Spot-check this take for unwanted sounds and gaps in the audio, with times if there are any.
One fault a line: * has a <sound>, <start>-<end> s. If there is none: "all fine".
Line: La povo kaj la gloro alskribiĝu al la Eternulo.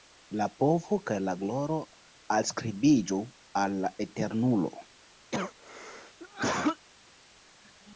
* has a cough, 5.3-6.9 s